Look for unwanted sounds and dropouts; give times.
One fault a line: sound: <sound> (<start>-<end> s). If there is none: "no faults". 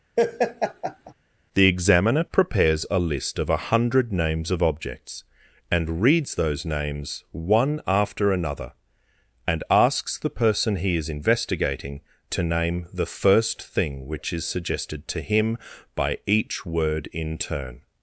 sound: laugh (0.2-1.1 s)